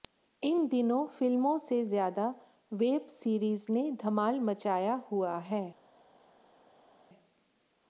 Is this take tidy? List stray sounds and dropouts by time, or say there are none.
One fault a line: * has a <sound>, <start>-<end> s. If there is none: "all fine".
all fine